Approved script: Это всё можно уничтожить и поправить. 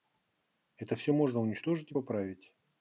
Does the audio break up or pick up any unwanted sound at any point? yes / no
no